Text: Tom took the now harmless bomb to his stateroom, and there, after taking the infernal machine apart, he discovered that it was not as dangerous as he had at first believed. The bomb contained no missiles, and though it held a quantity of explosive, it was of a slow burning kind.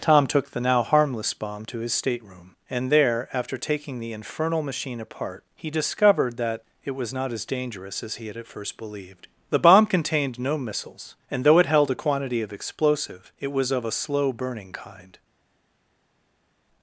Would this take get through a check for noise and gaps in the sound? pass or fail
pass